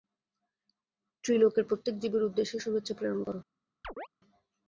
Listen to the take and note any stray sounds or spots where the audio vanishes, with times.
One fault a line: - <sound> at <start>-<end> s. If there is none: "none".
- chirp at 3.8-4.1 s